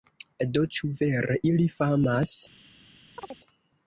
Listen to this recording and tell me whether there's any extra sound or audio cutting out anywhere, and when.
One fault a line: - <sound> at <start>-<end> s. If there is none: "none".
- chirp at 3.2-3.4 s